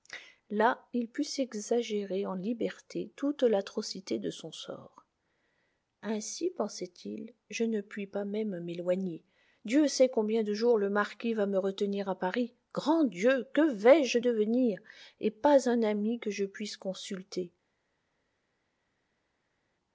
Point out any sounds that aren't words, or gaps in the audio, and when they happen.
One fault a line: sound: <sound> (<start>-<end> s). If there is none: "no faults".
no faults